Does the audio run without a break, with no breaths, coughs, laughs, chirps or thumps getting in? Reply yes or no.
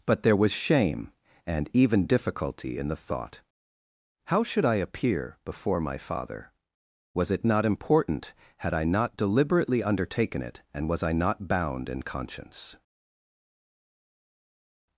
yes